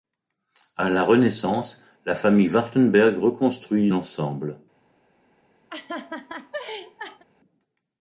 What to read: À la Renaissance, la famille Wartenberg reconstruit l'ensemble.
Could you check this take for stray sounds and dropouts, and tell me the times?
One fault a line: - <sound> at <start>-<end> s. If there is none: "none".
- laugh at 5.7-7.2 s